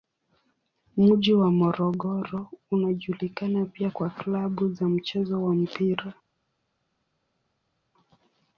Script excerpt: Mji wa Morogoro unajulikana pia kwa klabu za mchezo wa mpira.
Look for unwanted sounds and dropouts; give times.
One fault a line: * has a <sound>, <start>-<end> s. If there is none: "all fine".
all fine